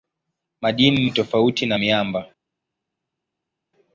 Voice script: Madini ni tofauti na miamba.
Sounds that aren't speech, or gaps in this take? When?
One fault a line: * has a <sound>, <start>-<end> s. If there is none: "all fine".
all fine